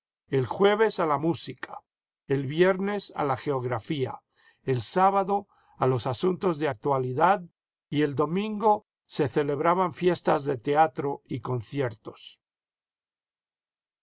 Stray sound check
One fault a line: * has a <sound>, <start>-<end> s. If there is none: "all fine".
all fine